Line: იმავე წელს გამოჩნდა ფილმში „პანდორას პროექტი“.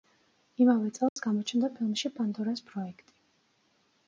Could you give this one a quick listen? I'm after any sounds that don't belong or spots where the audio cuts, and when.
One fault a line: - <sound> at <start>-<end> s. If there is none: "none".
- dropout at 1.1-1.2 s